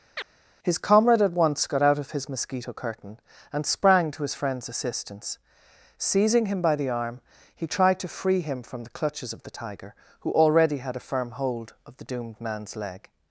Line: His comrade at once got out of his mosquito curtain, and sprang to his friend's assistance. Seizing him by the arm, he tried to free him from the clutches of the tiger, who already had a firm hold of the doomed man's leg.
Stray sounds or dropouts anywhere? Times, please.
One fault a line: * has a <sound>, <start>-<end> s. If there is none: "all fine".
* has a chirp, 0.2-0.3 s